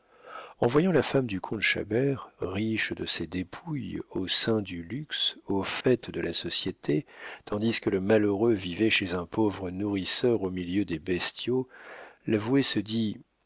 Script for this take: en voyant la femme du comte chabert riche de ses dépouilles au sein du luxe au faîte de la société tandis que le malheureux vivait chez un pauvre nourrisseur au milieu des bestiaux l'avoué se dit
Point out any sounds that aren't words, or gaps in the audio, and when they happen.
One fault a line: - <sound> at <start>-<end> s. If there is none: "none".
- dropout at 5.8-5.8 s